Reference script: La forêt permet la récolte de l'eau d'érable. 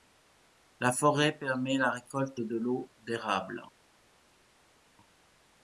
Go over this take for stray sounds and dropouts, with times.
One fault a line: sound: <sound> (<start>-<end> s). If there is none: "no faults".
no faults